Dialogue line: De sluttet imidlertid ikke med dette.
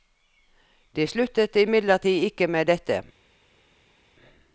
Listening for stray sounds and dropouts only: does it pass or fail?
pass